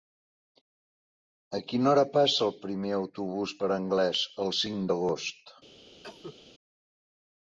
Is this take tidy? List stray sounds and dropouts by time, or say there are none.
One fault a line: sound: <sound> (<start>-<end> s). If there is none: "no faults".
sound: cough (6.0-6.4 s)